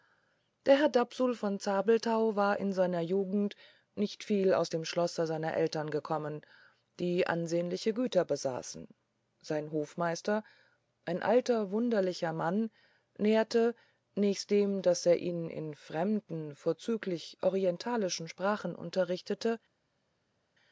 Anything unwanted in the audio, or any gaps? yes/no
no